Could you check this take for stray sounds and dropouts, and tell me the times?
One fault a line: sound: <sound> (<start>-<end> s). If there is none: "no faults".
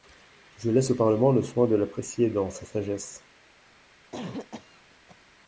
sound: cough (4.1-5.2 s)